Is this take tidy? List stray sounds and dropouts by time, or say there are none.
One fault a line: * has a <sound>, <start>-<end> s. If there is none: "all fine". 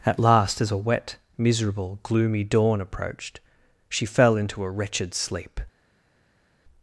all fine